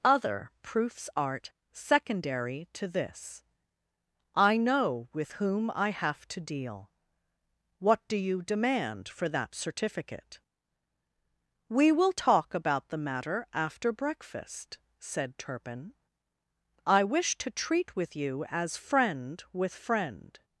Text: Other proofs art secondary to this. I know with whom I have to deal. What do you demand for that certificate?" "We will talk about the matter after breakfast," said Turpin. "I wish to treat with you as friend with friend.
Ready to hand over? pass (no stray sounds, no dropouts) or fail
pass